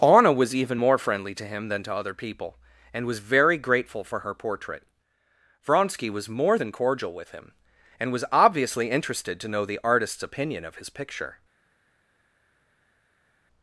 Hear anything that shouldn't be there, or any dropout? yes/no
no